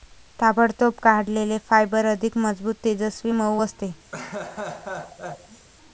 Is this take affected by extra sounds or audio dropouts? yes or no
yes